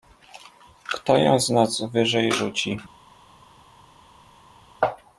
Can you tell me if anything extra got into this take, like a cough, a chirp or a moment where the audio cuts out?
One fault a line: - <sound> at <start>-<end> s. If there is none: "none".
none